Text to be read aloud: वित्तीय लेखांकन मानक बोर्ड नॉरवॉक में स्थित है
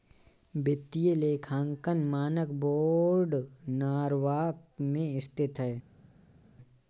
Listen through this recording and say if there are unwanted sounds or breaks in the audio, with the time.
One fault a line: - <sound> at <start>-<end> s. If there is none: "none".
none